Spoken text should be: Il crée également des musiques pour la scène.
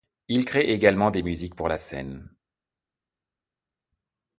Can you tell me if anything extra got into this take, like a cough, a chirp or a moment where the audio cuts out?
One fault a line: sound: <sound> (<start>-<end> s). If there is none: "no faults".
no faults